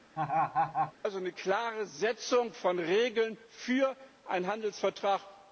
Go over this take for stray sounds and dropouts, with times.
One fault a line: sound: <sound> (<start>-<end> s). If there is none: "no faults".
sound: laugh (0.2-0.9 s)